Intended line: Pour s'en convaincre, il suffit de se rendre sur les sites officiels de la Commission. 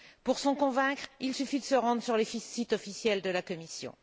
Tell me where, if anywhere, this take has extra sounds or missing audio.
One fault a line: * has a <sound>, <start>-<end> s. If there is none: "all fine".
all fine